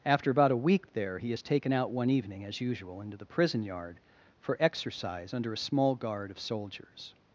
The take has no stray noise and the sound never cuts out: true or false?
true